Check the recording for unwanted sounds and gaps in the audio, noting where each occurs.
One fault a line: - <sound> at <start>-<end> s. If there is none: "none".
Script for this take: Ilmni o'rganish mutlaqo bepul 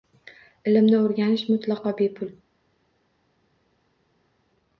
none